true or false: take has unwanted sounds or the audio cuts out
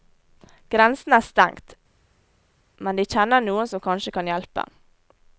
false